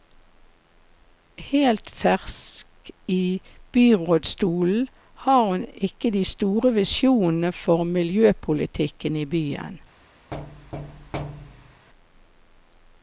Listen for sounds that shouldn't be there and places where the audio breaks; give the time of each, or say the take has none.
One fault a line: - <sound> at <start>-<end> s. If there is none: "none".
- thud at 10.3-11.9 s